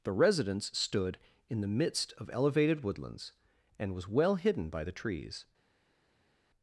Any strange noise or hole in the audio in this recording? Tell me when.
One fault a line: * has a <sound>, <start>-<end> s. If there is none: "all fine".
all fine